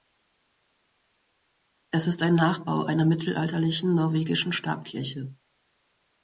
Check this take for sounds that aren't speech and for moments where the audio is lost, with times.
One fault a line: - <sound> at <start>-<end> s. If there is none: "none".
none